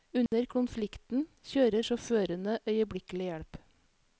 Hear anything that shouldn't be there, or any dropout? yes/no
yes